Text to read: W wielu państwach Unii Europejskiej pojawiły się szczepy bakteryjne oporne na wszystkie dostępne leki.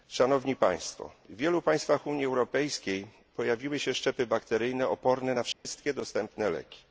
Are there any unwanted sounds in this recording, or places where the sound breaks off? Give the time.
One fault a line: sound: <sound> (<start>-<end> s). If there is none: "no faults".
sound: dropout (5.5-5.7 s)